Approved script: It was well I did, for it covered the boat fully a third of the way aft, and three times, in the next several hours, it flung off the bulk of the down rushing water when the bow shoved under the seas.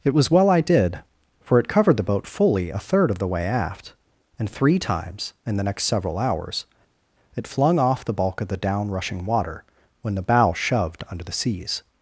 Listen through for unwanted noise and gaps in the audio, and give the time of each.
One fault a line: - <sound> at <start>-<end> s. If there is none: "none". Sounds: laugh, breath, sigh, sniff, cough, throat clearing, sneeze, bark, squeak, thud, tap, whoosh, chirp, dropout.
none